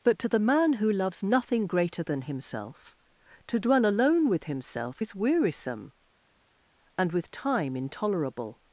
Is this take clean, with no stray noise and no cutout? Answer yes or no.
yes